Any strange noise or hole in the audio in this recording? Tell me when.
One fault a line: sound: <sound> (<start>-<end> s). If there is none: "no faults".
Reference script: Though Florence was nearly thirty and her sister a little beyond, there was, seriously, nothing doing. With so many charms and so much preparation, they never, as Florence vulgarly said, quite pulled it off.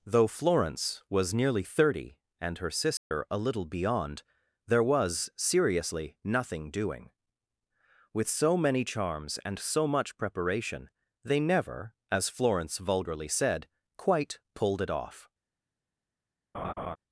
sound: dropout (3.0-3.1 s)
sound: laugh (16.5-17.0 s)